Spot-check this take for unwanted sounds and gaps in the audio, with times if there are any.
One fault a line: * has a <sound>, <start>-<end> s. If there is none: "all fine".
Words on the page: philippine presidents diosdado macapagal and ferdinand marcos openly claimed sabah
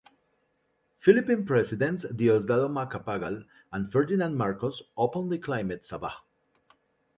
all fine